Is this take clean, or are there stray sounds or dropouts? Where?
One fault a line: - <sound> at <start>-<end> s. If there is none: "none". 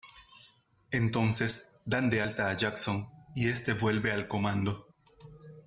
none